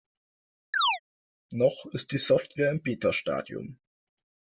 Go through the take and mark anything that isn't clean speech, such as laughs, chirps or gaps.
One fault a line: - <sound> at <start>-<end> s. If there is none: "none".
- chirp at 0.7-1.0 s